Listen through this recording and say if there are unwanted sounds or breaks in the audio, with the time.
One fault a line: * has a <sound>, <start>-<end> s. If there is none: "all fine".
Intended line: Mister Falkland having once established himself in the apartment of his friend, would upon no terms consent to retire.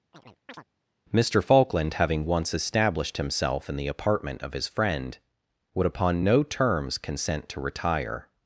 * has a chirp, 0.1-0.6 s